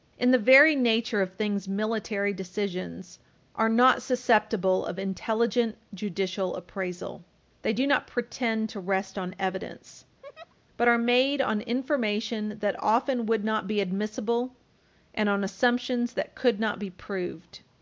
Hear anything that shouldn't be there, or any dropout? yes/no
yes